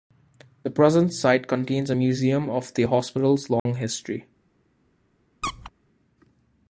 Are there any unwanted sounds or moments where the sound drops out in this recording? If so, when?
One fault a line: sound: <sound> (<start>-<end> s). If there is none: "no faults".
sound: dropout (3.6-3.7 s)
sound: squeak (5.4-5.7 s)